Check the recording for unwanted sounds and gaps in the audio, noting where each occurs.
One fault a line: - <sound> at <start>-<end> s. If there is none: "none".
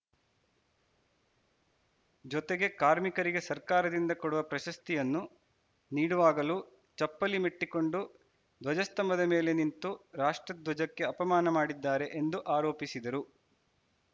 none